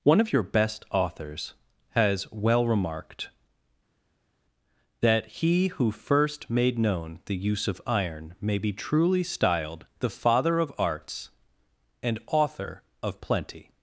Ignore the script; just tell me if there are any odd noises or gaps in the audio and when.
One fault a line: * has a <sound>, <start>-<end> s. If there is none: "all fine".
all fine